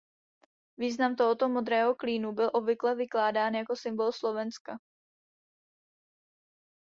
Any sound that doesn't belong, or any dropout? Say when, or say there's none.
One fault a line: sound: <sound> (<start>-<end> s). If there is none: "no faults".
no faults